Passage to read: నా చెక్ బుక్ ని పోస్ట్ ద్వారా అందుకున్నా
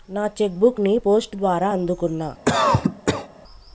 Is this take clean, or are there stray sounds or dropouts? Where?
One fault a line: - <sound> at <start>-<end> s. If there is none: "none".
- cough at 2.5-3.3 s